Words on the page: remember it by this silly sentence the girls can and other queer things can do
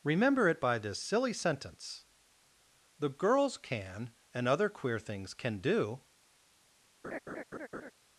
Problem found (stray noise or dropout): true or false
true